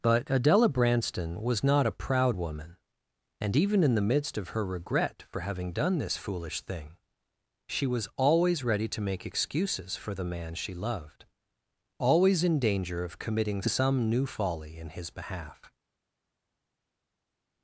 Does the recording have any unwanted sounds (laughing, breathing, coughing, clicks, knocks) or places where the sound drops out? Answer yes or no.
no